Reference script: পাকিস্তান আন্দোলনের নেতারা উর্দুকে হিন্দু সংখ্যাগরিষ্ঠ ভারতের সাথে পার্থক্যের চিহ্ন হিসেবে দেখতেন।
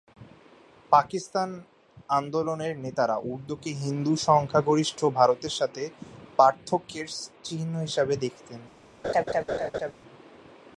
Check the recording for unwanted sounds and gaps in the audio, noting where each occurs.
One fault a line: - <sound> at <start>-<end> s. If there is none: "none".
- laugh at 9.0-9.9 s